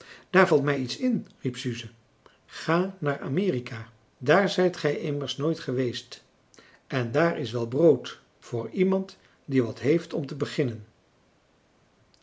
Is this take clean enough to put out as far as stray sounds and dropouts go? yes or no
yes